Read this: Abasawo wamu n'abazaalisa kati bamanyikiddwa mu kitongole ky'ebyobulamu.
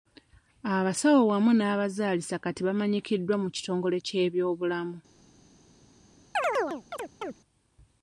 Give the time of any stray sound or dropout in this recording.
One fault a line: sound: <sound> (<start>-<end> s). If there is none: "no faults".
sound: chirp (6.3-7.4 s)